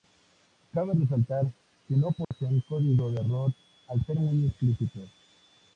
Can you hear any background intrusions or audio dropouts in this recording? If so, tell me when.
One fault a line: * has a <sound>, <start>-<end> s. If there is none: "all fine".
* has a dropout, 2.2-2.3 s